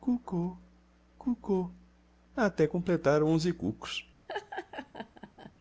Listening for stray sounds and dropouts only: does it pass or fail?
fail